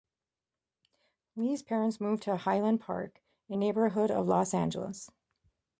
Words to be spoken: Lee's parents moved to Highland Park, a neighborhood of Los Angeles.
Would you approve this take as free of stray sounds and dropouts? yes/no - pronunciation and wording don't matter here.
yes